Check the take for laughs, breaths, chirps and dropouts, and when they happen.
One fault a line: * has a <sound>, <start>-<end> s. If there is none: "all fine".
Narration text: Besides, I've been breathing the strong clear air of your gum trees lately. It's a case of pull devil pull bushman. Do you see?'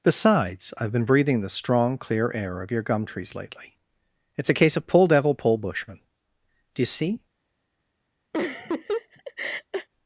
* has a laugh, 8.3-9.9 s